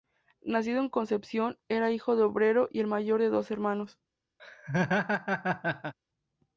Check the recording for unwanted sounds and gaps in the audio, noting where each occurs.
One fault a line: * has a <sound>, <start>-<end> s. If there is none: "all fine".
* has a laugh, 4.4-5.9 s